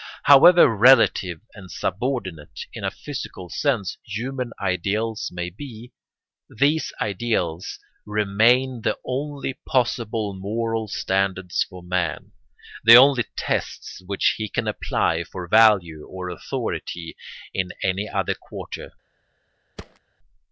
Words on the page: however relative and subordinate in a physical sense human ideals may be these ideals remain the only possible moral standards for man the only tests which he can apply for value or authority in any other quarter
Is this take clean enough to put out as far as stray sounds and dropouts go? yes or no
no